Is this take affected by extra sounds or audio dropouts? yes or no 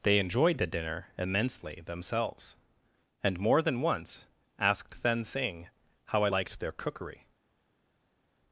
no